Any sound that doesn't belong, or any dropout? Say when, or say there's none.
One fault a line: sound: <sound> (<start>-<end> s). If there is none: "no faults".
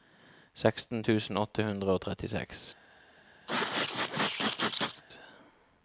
sound: sneeze (3.5-5.0 s)